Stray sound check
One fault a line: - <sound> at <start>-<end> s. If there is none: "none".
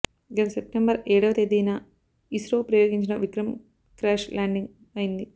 none